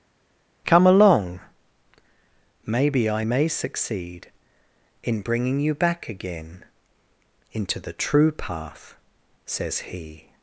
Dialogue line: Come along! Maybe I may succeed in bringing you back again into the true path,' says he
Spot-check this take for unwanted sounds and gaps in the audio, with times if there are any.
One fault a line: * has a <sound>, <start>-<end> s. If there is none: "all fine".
all fine